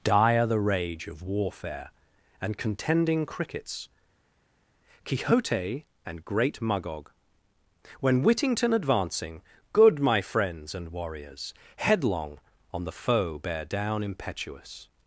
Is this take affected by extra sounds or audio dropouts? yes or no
no